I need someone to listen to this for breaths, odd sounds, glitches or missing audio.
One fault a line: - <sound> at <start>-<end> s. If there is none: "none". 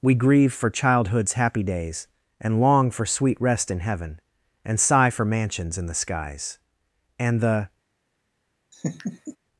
- laugh at 8.7-9.4 s